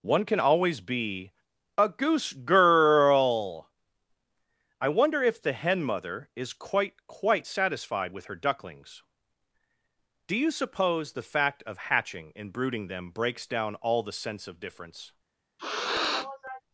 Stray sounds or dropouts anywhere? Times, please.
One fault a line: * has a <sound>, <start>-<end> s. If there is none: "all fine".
* has a sniff, 15.6-16.6 s